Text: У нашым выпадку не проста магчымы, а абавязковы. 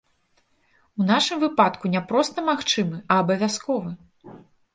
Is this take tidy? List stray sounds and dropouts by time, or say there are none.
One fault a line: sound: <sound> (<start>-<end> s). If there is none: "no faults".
no faults